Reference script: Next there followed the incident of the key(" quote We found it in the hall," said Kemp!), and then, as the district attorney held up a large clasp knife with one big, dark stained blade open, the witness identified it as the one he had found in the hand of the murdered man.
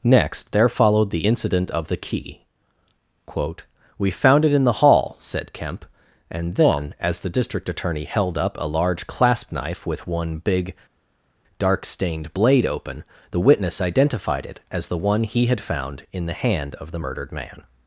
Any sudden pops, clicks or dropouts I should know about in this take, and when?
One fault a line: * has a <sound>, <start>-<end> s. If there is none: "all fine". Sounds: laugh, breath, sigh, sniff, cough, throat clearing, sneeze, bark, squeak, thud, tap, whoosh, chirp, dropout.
all fine